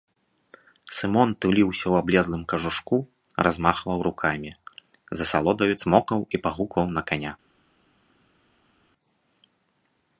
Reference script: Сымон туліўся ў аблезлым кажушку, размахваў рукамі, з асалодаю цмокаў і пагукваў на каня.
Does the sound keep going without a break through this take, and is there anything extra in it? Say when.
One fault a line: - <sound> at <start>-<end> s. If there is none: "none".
none